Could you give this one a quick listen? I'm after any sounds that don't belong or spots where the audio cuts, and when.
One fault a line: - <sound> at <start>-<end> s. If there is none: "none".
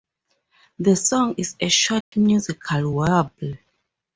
- dropout at 2.0-2.1 s